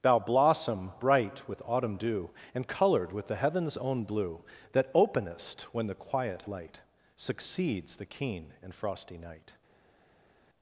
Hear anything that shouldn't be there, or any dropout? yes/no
no